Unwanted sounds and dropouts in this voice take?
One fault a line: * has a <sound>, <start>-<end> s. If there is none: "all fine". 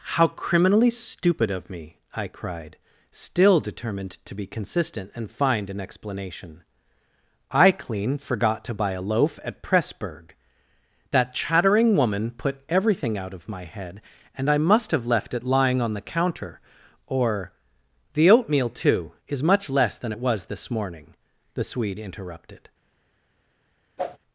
* has a whoosh, 24.0-24.2 s